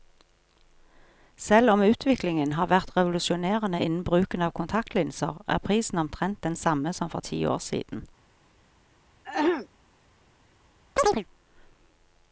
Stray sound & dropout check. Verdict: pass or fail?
fail